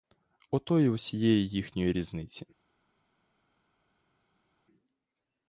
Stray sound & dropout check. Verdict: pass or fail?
pass